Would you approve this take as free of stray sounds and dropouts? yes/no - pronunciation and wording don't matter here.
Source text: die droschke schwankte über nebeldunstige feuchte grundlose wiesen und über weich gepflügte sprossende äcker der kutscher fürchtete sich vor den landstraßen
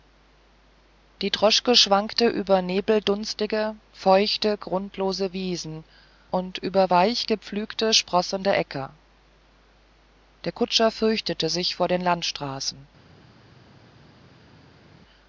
yes